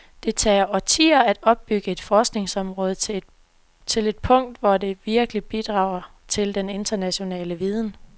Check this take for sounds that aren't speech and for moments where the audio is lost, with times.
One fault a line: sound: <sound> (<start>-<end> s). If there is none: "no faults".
no faults